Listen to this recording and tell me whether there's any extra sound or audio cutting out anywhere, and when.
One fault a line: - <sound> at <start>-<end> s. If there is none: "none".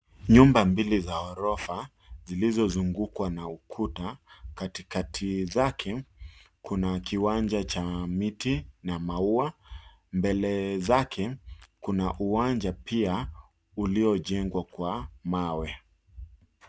none